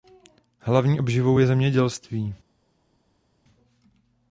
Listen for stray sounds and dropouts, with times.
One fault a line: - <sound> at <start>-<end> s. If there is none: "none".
none